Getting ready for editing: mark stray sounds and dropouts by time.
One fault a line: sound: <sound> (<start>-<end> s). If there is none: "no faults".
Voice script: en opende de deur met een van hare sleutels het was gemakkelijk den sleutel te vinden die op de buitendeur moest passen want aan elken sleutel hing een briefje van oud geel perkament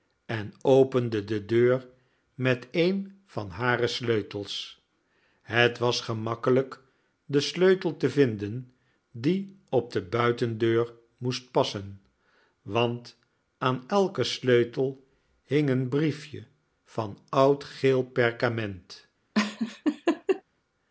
sound: laugh (19.3-20.4 s)